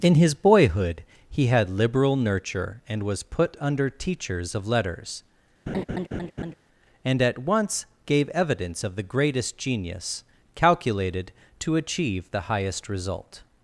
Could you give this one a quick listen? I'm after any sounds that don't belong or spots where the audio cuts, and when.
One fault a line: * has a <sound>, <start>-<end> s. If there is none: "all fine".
* has a laugh, 5.7-6.5 s